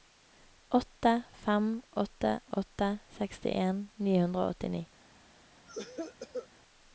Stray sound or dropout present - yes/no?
yes